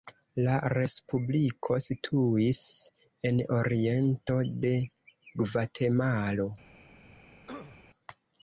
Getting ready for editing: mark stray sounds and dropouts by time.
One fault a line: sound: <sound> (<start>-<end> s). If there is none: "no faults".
sound: throat clearing (7.5-7.9 s)